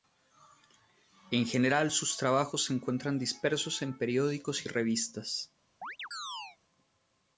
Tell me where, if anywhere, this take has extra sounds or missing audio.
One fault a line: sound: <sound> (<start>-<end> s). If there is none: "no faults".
sound: chirp (5.8-6.6 s)